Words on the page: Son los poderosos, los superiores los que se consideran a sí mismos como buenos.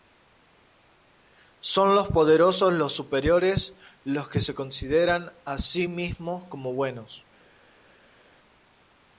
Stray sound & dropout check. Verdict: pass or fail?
pass